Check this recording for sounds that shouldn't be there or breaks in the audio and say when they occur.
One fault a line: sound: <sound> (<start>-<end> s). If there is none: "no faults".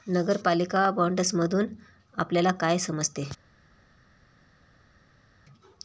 no faults